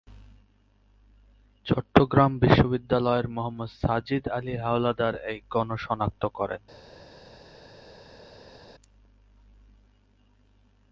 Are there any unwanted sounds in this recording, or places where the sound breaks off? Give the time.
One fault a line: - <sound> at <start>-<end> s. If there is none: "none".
none